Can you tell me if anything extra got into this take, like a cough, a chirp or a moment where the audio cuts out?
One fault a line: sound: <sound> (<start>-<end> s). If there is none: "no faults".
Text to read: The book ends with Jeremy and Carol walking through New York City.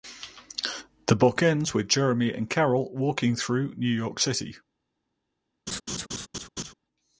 sound: laugh (5.7-6.7 s)